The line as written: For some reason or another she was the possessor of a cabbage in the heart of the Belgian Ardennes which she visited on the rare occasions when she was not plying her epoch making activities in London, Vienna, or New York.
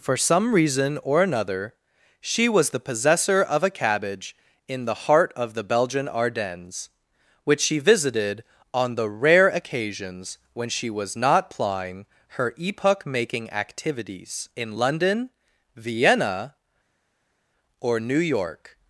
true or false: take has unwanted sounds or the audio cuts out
false